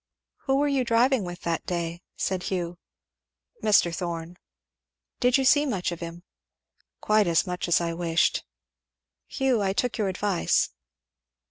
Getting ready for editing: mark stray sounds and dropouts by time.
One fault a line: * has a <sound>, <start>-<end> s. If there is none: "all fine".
all fine